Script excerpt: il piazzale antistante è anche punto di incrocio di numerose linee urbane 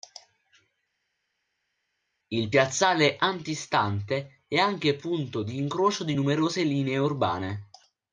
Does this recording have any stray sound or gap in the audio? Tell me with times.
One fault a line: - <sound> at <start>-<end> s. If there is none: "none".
none